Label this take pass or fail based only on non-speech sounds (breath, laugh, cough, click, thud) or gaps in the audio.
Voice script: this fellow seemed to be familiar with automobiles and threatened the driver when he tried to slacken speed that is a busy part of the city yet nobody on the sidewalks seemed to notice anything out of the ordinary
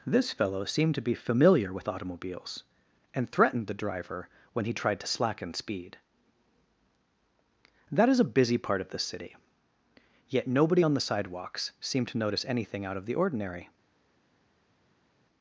pass